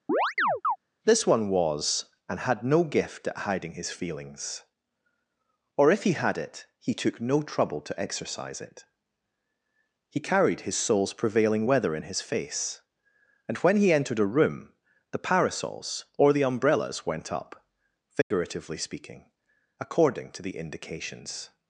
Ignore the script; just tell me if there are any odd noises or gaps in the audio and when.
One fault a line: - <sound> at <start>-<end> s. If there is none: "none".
- chirp at 0.1-0.8 s
- dropout at 18.2-18.3 s